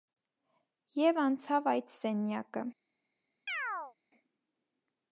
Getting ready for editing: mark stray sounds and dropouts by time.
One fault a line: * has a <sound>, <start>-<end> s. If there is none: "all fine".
* has a chirp, 3.5-3.9 s